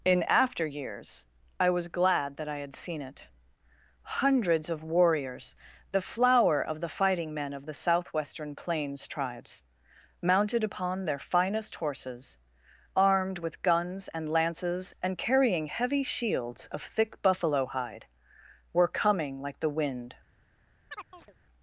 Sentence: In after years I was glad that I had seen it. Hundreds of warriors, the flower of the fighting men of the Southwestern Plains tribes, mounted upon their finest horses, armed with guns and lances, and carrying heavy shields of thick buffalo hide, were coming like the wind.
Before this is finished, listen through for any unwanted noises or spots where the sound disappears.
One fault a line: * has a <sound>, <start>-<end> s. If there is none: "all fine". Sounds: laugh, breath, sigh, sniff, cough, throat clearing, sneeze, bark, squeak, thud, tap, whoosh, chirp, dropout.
* has a chirp, 20.9-21.3 s